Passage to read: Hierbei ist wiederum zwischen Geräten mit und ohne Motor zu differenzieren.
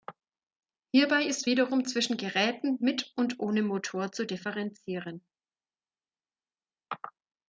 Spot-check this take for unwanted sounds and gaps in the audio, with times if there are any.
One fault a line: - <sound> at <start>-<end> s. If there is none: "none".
none